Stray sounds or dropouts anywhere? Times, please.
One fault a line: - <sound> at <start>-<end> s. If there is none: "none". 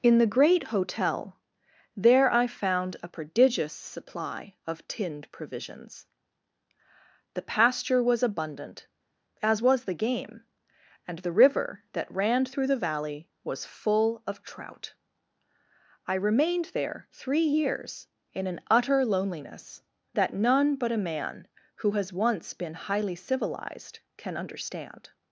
none